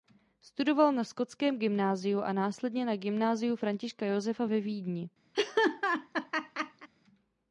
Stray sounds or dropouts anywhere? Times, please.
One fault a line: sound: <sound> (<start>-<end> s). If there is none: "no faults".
sound: laugh (5.3-6.9 s)